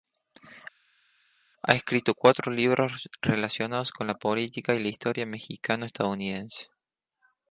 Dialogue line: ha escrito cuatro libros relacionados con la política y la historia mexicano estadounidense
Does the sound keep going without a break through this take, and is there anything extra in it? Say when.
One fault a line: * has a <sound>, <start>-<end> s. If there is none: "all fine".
all fine